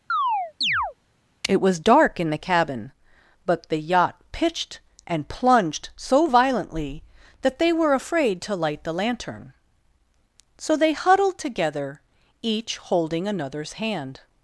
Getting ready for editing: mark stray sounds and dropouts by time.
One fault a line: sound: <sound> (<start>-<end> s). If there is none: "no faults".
sound: chirp (0.1-0.9 s)